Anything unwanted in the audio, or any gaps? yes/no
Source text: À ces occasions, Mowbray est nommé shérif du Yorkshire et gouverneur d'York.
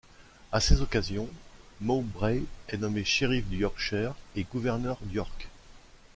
no